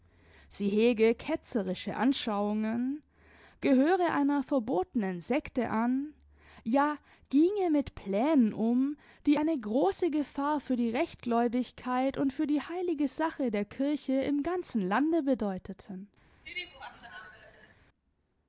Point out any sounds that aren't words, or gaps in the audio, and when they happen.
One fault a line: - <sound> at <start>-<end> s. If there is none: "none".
- laugh at 16.4-17.7 s